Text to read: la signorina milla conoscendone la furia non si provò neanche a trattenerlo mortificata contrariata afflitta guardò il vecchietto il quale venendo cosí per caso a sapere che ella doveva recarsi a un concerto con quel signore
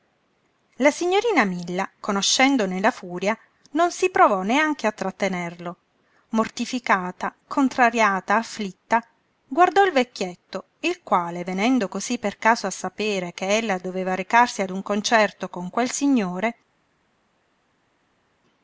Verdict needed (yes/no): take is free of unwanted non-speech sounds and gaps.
yes